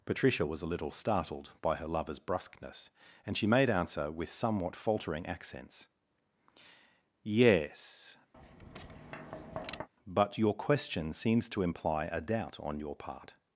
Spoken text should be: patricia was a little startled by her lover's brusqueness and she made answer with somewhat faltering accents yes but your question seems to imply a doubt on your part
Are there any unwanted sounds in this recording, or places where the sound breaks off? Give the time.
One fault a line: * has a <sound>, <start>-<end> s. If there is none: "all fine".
* has a tap, 8.3-9.9 s